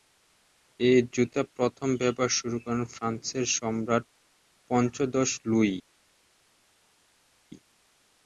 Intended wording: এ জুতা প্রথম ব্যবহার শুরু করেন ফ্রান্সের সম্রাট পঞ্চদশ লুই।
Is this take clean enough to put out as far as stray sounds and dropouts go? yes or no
yes